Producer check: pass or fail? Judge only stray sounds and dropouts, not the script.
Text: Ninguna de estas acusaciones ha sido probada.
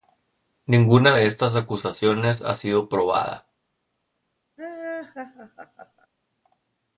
fail